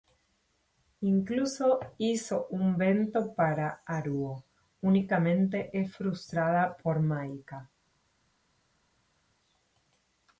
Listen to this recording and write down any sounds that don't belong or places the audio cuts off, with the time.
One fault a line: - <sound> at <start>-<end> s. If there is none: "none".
none